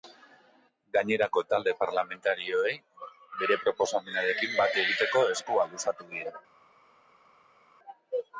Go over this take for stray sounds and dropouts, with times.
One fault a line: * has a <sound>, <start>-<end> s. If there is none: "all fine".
all fine